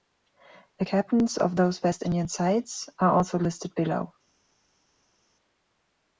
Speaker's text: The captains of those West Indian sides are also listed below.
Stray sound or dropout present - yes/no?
no